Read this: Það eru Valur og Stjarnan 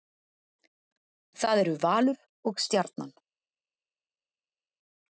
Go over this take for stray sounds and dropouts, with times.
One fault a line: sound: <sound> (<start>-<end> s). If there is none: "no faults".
no faults